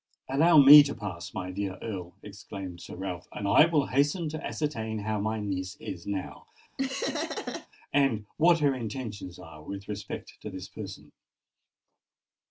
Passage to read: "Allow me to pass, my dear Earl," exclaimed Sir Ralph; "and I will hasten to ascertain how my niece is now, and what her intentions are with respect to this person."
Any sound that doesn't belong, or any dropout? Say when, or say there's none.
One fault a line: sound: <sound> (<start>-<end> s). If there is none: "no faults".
sound: laugh (6.8-7.7 s)